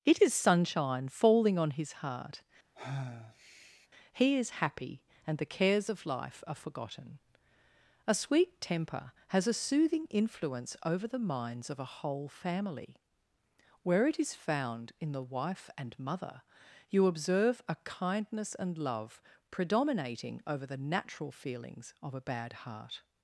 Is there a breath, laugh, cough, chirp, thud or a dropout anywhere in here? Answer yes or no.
yes